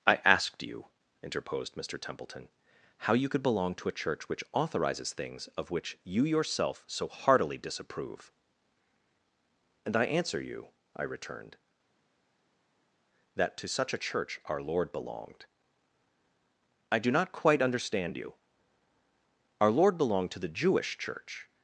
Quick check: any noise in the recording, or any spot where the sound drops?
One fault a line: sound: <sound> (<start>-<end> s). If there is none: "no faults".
no faults